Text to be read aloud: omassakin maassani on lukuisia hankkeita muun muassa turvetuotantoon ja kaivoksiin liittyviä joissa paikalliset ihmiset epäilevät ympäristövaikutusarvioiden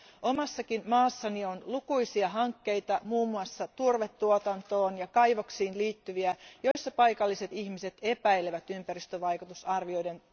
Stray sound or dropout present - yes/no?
yes